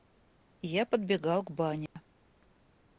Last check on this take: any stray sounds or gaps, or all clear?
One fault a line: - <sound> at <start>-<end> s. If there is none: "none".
- dropout at 1.9-2.0 s